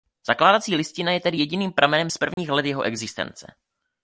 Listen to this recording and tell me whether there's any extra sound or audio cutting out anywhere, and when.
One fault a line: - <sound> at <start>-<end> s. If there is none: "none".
- dropout at 2.3-2.4 s